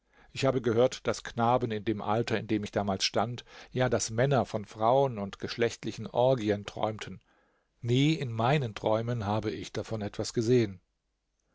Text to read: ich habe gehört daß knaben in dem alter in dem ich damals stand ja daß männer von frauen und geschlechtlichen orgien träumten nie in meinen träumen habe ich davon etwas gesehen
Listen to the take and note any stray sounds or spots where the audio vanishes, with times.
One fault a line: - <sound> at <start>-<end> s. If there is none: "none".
none